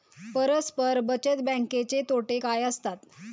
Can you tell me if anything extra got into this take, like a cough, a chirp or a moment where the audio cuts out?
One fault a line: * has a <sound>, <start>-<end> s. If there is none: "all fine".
all fine